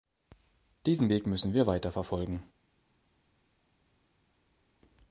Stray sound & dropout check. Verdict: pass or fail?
pass